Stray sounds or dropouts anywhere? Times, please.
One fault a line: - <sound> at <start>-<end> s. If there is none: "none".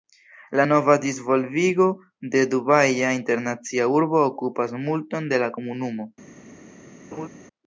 - laugh at 7.1-7.3 s